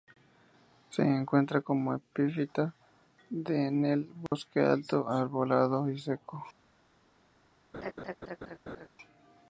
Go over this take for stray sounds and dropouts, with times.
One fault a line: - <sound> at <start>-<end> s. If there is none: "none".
- dropout at 4.3-4.3 s
- laugh at 7.7-8.9 s